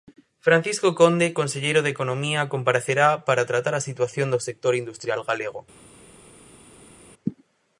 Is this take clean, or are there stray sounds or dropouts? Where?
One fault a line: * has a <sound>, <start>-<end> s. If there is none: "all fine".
all fine